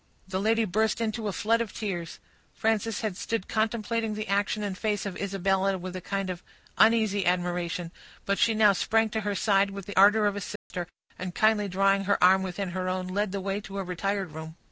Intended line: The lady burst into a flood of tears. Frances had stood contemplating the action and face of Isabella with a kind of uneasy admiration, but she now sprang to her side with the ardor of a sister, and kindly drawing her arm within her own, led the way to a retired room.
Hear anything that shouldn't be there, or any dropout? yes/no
yes